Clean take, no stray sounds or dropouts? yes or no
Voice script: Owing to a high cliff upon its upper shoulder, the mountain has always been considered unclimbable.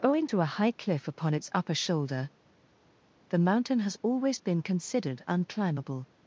yes